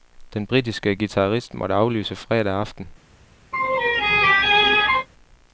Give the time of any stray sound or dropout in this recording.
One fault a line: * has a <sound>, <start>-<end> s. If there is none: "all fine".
* has a laugh, 3.5-5.1 s